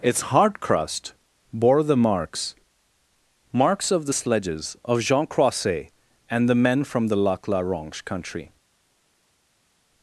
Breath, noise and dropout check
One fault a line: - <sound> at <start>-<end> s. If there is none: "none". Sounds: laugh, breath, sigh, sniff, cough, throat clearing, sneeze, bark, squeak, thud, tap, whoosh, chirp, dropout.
none